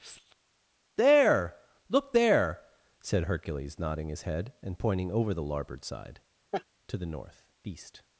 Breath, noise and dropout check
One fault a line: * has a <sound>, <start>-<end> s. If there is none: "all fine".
* has a laugh, 6.5-6.6 s